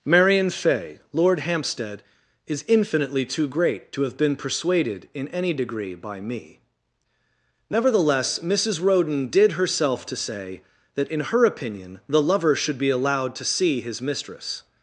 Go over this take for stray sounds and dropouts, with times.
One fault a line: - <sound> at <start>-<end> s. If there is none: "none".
none